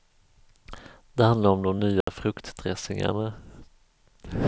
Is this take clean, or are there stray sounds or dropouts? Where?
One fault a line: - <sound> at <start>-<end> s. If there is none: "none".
- dropout at 2.0-2.1 s